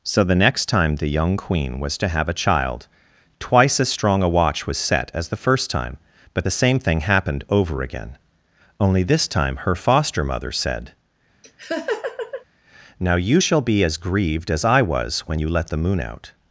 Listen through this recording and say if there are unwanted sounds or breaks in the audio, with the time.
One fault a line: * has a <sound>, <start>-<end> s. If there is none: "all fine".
* has a laugh, 11.4-12.4 s